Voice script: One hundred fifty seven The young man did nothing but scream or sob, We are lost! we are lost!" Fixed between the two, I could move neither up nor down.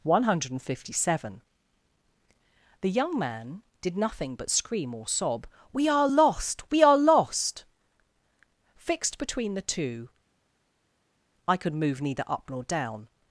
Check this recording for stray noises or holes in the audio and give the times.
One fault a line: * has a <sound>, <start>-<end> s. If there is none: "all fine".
all fine